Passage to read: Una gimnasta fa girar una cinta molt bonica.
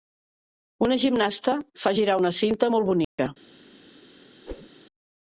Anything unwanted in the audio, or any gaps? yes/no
yes